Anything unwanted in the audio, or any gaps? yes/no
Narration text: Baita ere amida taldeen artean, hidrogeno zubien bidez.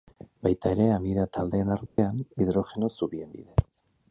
yes